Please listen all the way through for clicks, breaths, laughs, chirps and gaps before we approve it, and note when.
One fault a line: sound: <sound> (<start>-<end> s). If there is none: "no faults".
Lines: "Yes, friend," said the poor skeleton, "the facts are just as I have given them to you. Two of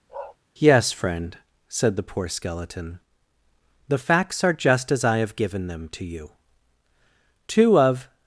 sound: bark (0.1-0.4 s)